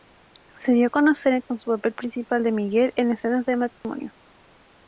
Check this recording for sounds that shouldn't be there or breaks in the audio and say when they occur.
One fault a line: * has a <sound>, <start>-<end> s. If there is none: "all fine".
* has a dropout, 3.7-3.8 s